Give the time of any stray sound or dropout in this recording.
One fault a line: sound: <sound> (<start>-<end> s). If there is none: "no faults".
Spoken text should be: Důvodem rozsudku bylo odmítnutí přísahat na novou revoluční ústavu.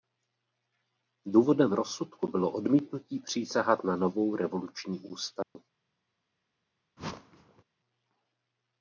sound: dropout (5.4-5.6 s)
sound: whoosh (7.0-7.6 s)